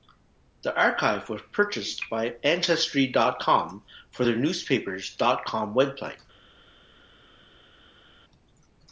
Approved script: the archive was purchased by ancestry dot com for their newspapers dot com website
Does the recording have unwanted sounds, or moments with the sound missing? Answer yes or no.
no